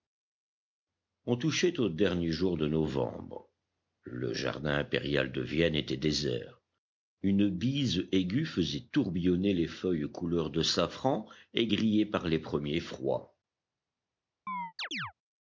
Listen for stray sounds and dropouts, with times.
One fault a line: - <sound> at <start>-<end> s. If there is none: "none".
- chirp at 14.5-15.1 s